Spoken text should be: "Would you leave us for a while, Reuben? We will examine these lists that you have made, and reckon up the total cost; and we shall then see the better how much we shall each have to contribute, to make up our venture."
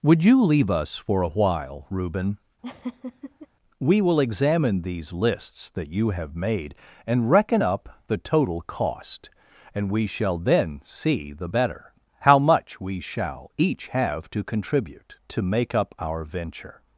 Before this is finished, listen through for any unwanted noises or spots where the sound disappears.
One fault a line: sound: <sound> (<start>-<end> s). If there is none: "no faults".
sound: laugh (2.6-3.5 s)